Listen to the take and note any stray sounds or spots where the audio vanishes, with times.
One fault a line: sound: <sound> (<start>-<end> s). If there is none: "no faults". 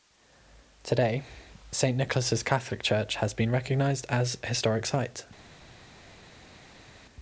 no faults